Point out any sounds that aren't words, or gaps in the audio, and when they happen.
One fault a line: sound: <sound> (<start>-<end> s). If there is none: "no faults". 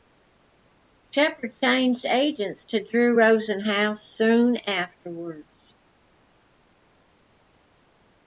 no faults